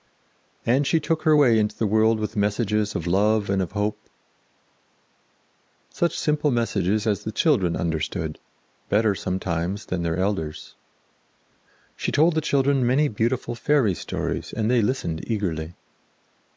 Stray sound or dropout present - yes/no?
no